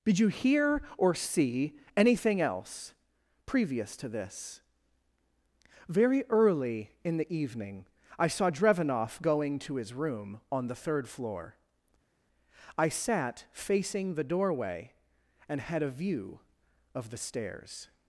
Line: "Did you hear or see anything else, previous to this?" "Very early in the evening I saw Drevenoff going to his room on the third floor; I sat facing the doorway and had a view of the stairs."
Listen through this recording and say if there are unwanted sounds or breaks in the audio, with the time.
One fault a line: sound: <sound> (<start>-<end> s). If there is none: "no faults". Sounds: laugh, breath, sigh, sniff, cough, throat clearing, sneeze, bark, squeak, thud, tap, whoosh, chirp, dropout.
no faults